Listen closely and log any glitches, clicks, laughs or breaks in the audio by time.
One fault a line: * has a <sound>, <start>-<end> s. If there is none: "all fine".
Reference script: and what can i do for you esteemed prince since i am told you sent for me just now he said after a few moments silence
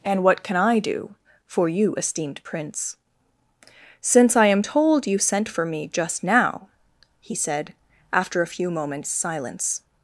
all fine